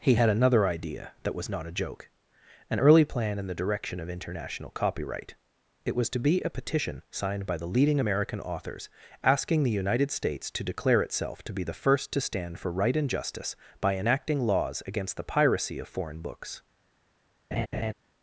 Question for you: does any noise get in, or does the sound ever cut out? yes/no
yes